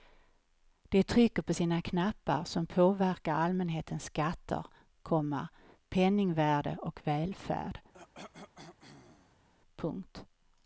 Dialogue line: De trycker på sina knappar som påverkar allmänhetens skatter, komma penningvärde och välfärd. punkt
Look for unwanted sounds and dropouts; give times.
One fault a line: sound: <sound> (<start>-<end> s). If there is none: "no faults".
sound: cough (7.9-9.5 s)